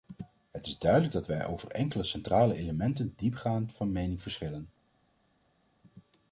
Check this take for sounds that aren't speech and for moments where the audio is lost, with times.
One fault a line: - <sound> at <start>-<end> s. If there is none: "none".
none